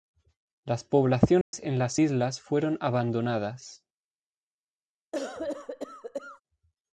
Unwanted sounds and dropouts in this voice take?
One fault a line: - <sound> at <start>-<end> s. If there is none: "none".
- dropout at 1.4-1.5 s
- cough at 5.1-6.4 s